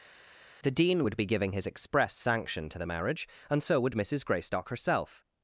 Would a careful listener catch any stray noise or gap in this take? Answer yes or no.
no